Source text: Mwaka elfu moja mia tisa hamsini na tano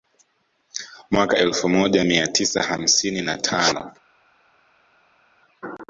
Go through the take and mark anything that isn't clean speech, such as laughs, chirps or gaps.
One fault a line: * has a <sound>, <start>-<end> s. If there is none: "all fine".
all fine